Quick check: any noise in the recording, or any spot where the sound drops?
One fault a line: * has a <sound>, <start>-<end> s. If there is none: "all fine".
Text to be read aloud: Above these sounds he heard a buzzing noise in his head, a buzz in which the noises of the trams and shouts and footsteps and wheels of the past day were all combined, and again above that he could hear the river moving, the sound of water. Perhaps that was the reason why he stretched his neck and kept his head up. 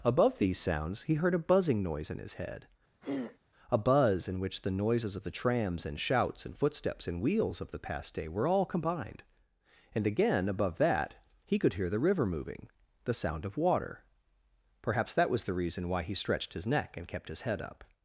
* has a throat clearing, 3.0-3.4 s